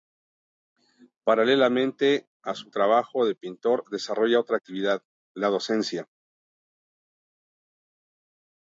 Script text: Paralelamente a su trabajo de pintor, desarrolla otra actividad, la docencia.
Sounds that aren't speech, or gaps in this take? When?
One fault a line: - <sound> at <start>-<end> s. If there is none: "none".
none